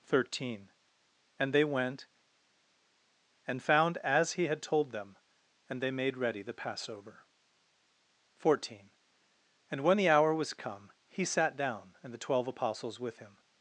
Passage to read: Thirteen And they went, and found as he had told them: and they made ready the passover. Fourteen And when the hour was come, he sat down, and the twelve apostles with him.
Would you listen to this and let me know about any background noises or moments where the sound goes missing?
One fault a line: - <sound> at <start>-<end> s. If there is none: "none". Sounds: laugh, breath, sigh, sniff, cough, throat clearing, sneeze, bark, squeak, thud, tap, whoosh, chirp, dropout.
none